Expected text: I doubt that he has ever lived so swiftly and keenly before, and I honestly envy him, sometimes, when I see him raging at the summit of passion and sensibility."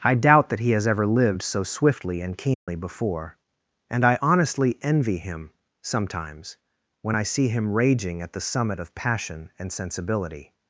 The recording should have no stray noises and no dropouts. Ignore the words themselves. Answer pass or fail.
fail